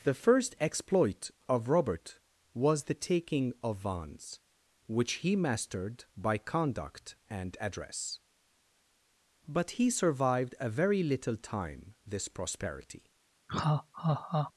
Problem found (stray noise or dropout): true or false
true